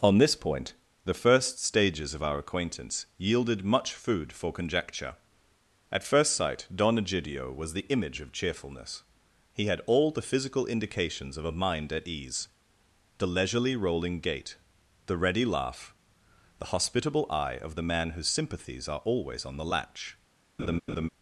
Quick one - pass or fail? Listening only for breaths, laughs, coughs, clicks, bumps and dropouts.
fail